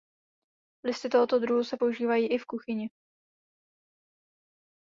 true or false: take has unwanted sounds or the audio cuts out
false